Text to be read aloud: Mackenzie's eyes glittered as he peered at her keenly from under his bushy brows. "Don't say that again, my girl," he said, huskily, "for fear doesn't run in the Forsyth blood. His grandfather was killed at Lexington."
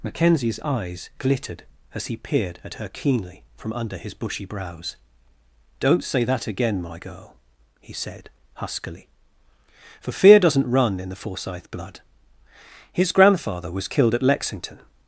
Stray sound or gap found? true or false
false